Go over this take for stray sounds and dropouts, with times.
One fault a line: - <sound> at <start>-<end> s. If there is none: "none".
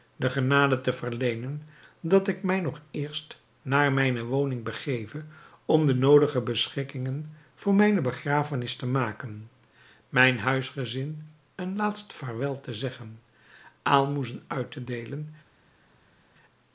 none